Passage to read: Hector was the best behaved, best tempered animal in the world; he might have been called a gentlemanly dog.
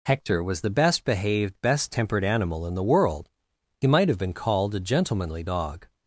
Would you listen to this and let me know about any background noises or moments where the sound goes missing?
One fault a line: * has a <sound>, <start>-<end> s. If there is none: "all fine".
all fine